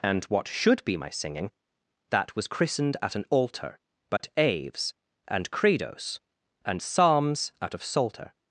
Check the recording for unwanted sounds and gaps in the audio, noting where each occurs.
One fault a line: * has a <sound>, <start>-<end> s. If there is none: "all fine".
* has a dropout, 4.2-4.2 s